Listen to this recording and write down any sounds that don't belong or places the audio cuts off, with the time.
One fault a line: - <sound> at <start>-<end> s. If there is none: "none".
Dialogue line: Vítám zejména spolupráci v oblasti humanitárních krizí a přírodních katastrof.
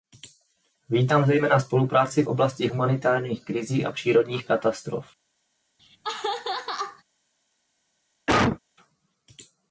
- laugh at 5.8-7.0 s
- cough at 8.3-8.6 s